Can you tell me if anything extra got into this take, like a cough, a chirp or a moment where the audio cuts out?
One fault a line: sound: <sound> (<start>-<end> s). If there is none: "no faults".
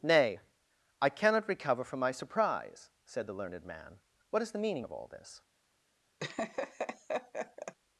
sound: laugh (6.2-7.7 s)